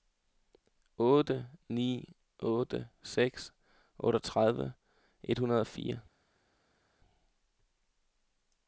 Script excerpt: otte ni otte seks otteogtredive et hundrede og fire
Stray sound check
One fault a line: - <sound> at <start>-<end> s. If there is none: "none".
none